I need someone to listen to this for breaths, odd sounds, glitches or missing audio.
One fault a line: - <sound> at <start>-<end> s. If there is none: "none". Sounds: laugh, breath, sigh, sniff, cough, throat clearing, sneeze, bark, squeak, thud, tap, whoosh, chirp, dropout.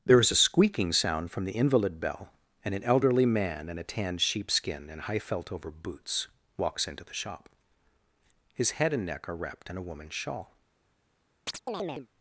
- chirp at 11.5-12.1 s